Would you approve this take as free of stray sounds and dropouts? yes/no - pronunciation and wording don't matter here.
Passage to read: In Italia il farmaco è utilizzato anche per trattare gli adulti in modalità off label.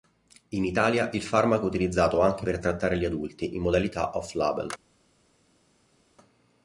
yes